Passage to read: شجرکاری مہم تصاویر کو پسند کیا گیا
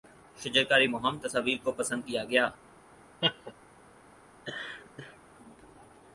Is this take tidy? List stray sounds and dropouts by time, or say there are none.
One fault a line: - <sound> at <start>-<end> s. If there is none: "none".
- laugh at 3.2-3.5 s
- laugh at 4.4-5.2 s